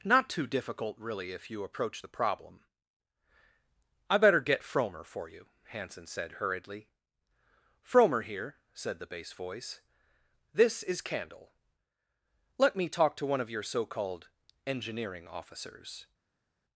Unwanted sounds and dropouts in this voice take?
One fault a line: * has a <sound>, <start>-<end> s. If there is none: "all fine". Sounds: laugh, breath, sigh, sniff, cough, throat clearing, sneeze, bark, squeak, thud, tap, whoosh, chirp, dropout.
all fine